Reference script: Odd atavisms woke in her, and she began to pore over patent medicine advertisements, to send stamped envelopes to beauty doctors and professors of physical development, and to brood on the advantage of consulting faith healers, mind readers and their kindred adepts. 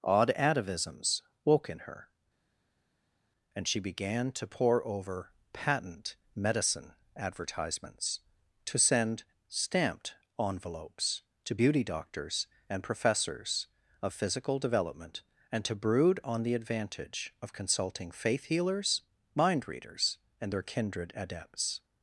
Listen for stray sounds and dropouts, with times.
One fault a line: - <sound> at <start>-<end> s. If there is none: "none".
none